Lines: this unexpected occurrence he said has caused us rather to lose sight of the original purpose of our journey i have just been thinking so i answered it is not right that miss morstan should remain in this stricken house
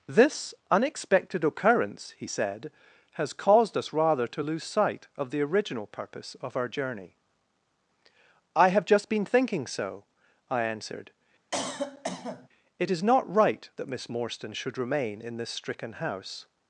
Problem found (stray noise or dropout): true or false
true